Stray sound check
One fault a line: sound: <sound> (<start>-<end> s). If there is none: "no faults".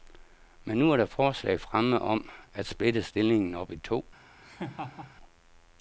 sound: laugh (4.4-5.2 s)